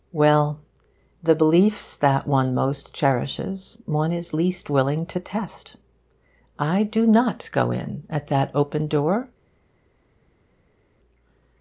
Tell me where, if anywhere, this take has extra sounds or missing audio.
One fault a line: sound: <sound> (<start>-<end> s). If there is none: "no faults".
no faults